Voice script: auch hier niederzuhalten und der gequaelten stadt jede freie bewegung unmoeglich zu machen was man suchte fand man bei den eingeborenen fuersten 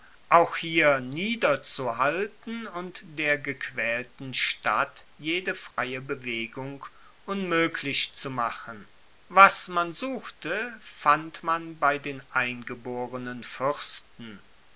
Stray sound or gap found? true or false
true